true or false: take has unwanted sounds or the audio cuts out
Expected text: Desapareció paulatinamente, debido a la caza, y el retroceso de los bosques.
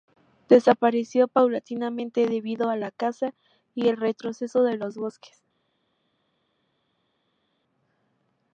false